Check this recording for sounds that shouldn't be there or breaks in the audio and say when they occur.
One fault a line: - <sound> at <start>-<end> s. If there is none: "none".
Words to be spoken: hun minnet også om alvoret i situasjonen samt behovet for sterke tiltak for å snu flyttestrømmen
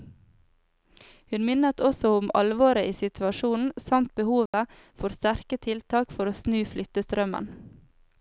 - dropout at 4.5-4.5 s